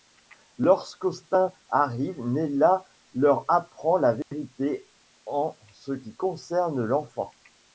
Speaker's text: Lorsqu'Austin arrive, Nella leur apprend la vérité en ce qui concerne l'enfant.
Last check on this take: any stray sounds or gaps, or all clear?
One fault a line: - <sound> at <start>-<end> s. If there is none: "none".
- dropout at 4.2-4.3 s